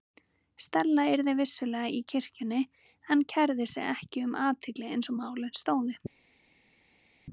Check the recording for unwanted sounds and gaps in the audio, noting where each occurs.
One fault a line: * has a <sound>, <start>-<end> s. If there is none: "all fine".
all fine